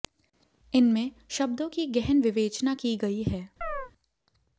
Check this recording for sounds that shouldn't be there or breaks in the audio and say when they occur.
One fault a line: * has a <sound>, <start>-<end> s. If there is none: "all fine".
* has a chirp, 3.6-3.9 s